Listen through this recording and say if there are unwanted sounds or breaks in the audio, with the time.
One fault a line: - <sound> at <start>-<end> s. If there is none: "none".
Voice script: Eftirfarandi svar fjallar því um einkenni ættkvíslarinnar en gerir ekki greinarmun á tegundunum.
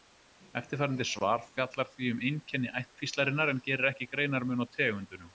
none